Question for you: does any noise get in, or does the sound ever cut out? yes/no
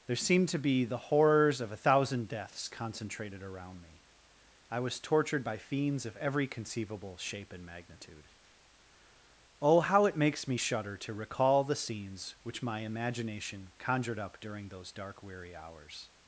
no